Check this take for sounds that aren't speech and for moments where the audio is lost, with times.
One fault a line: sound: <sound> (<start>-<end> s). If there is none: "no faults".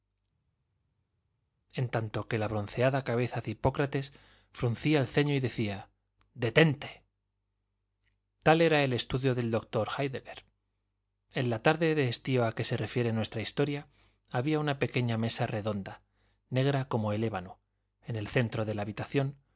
no faults